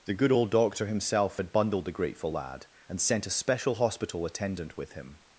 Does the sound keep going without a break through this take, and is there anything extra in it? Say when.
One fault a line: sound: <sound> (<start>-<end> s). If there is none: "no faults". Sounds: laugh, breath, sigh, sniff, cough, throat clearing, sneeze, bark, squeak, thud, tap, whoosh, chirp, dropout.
no faults